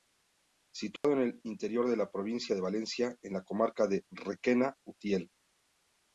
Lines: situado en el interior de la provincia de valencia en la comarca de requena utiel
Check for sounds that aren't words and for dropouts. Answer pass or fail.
fail